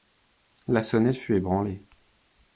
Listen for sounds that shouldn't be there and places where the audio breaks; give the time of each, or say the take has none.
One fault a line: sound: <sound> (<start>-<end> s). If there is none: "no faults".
no faults